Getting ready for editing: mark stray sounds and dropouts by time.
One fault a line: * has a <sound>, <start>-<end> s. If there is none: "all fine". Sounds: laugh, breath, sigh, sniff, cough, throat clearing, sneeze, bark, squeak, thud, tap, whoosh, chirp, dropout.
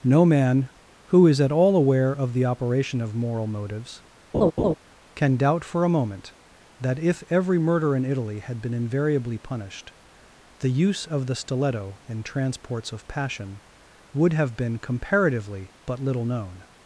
* has a laugh, 4.3-4.7 s